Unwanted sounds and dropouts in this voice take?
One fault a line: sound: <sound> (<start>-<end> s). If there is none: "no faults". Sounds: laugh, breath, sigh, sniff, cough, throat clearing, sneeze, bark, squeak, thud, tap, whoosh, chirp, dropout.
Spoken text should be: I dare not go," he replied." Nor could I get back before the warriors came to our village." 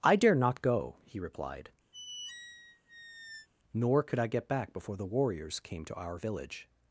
sound: squeak (1.9-3.5 s)